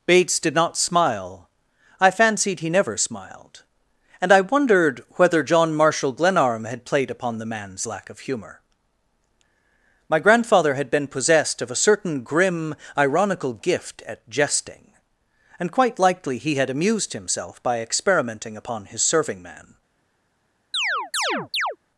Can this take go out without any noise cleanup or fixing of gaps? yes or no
no